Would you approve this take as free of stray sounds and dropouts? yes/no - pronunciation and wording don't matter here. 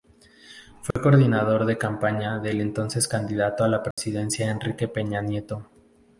no